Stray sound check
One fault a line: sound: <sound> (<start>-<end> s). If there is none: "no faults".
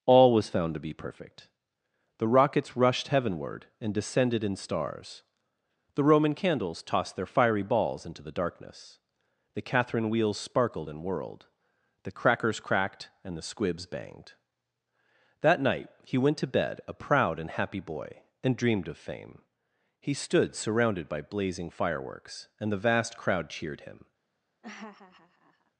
sound: laugh (24.6-25.7 s)